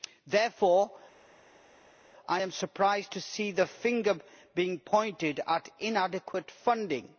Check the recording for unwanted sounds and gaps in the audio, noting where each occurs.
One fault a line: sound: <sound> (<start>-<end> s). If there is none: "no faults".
no faults